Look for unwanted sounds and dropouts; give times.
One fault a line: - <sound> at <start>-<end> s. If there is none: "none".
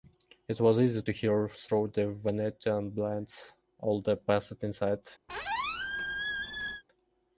- squeak at 5.3-6.8 s